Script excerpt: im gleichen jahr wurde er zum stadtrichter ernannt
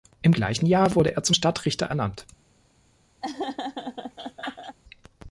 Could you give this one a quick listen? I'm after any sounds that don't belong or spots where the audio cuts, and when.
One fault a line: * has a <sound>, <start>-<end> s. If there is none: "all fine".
* has a laugh, 3.2-4.8 s